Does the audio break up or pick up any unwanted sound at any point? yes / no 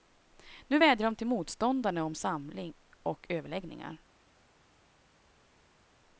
no